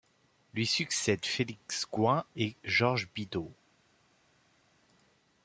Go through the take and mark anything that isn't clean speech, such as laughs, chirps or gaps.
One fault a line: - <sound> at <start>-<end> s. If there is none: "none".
none